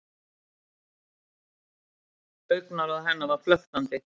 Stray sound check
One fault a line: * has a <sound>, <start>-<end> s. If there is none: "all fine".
all fine